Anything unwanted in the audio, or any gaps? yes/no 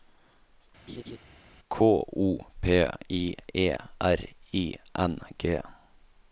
yes